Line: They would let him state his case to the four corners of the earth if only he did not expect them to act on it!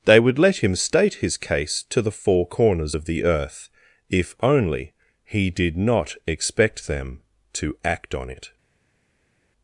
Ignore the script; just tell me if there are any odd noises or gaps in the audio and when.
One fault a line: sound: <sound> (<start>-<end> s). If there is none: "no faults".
no faults